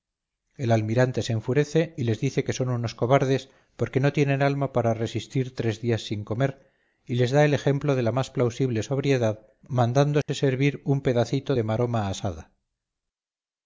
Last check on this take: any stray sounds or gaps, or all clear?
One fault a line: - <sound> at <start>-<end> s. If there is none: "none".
- dropout at 10.2-10.3 s